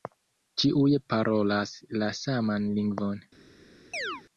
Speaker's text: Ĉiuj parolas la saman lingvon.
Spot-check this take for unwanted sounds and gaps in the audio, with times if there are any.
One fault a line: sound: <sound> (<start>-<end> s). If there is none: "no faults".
sound: chirp (3.9-4.2 s)